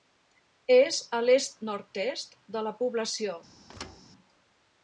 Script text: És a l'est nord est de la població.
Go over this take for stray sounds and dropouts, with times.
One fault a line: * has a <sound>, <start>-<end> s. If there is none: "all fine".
* has a thud, 3.7-4.0 s